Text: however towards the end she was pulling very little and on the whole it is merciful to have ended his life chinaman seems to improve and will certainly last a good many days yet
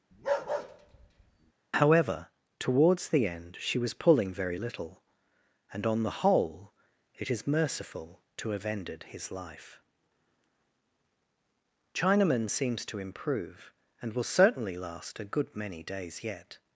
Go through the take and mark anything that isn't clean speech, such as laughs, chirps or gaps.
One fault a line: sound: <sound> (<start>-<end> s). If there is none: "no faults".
sound: bark (0.1-1.5 s)